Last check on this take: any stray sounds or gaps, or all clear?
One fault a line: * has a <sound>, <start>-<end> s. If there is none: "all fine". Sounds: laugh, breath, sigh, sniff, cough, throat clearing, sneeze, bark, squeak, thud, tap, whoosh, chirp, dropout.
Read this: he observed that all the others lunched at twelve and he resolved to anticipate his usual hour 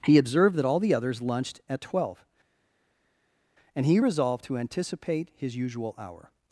all fine